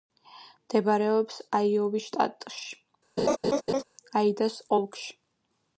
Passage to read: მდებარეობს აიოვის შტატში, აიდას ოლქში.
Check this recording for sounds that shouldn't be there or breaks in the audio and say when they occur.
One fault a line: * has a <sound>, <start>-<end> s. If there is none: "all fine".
* has a laugh, 3.2-3.8 s